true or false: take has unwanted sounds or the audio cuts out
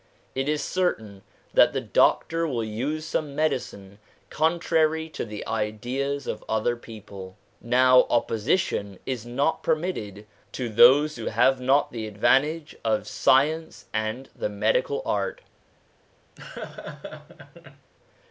true